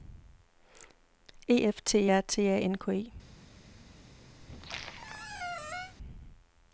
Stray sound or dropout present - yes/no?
yes